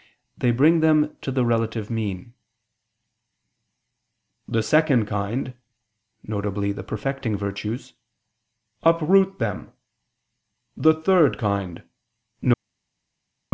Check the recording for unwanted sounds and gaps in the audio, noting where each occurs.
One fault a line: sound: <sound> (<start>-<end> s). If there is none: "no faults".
no faults